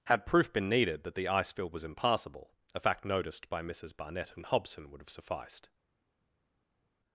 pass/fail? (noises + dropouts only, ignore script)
pass